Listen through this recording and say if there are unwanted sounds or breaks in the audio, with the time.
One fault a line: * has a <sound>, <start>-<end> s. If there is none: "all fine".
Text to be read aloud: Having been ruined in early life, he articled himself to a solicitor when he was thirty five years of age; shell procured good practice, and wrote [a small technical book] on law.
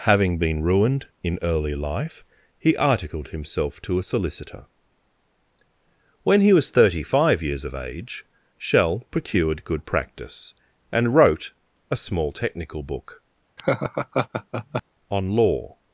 * has a laugh, 13.6-14.8 s